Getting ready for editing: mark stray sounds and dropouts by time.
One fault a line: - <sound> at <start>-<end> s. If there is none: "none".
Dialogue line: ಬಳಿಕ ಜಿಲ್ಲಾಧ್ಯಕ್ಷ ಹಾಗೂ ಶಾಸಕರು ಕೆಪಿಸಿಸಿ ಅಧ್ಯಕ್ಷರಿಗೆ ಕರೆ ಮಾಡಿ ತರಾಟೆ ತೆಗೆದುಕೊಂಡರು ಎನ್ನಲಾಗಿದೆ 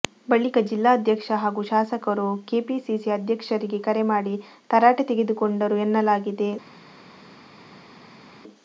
none